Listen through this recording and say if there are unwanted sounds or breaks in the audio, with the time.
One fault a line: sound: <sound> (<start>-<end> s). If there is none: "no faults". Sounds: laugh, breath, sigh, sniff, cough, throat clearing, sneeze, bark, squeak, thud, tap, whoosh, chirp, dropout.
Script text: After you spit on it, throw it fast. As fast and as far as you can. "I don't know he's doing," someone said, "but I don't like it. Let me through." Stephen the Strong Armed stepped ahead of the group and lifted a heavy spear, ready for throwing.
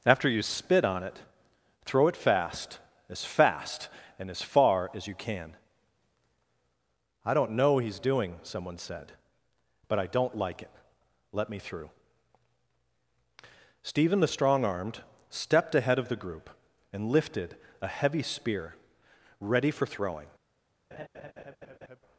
sound: laugh (20.9-22.0 s)